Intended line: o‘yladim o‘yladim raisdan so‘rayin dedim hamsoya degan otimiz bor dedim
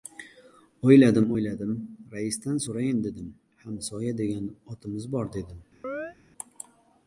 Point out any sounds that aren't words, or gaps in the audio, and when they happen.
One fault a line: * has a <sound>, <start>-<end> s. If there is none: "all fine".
* has a chirp, 5.8-6.2 s